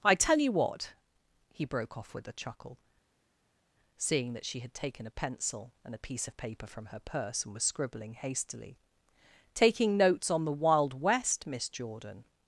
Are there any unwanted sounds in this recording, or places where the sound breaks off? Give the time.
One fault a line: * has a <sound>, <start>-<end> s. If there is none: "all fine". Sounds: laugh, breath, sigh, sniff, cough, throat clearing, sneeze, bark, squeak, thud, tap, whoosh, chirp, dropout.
all fine